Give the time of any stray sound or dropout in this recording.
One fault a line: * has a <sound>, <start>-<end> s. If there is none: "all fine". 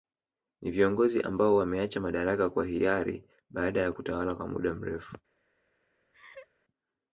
* has a laugh, 6.1-6.5 s